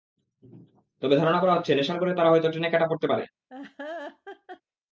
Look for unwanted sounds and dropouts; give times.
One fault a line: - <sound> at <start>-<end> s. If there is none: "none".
- laugh at 3.5-4.6 s